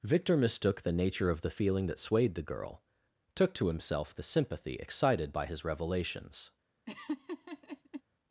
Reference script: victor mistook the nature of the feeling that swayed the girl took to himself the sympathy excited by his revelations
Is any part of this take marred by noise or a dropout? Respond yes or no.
yes